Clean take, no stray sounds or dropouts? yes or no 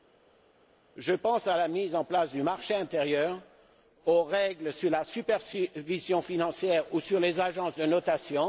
yes